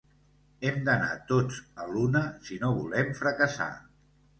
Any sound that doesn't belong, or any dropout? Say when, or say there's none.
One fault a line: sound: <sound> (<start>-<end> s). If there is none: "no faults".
no faults